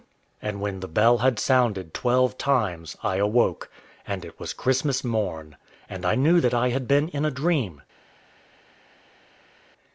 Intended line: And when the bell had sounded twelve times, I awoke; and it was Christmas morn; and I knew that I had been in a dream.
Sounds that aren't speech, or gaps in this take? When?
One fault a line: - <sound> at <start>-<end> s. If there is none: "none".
none